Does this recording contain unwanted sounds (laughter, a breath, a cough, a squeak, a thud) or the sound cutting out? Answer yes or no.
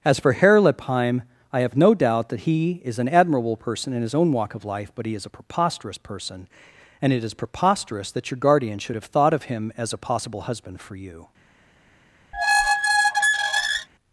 yes